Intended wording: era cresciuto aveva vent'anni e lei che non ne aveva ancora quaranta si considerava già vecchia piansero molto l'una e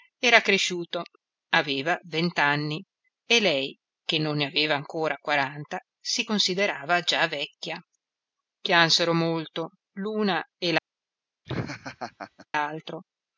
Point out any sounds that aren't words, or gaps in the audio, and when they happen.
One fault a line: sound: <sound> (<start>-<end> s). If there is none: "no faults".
sound: laugh (11.4-12.5 s)